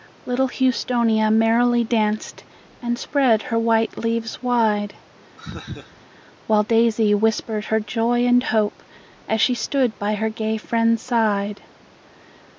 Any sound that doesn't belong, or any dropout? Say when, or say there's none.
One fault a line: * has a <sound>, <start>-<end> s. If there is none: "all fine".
* has a laugh, 5.4-6.1 s